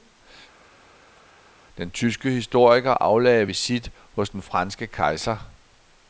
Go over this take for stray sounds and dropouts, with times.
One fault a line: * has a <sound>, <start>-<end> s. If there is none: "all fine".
all fine